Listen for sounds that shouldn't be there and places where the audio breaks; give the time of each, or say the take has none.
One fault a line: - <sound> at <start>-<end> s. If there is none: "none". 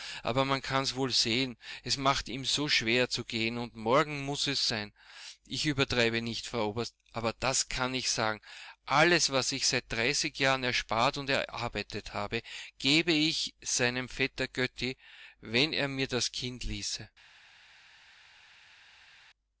none